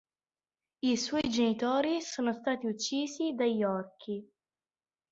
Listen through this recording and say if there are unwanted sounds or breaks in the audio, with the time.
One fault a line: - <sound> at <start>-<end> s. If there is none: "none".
none